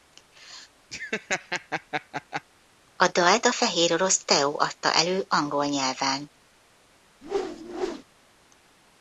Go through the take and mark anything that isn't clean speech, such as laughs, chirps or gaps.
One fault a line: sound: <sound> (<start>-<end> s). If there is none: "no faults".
sound: laugh (0.9-2.4 s)
sound: whoosh (7.2-8.0 s)